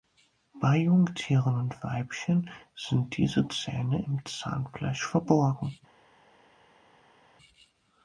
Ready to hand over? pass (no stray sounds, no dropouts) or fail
pass